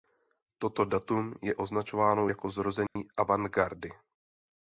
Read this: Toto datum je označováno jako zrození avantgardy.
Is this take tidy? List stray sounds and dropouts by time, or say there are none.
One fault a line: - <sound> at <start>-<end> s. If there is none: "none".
- dropout at 2.9-3.0 s